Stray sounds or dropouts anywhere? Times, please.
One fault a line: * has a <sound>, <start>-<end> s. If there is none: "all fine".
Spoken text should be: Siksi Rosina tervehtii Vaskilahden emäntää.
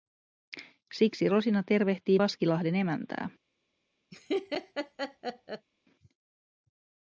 * has a laugh, 4.1-5.7 s